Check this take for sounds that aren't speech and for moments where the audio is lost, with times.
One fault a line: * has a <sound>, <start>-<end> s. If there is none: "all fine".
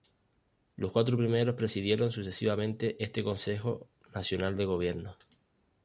all fine